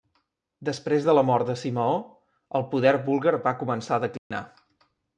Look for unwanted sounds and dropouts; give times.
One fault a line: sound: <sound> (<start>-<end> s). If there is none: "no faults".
sound: dropout (4.2-4.3 s)